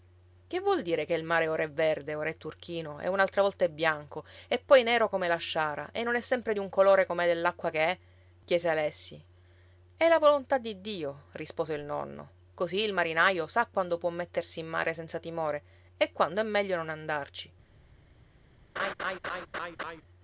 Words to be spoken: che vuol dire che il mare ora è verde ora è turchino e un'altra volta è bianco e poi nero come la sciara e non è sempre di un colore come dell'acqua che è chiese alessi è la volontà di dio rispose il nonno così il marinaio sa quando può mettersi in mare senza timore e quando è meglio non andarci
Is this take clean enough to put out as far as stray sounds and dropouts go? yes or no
no